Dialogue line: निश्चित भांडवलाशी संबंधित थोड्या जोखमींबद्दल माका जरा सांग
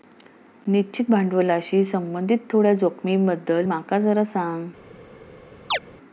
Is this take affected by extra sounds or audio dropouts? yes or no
yes